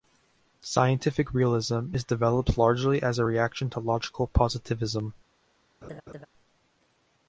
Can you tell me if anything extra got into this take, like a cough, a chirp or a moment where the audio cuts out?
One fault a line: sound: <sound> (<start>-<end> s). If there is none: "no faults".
sound: laugh (5.8-6.3 s)